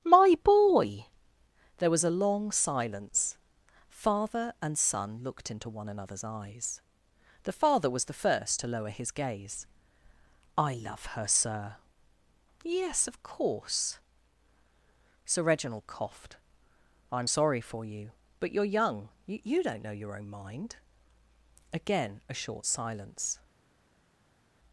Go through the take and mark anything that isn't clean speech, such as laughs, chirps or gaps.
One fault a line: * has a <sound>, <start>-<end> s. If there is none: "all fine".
all fine